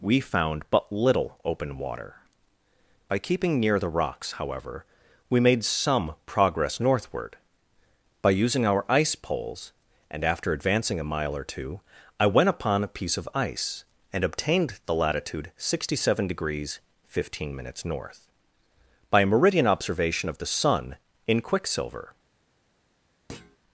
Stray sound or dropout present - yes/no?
yes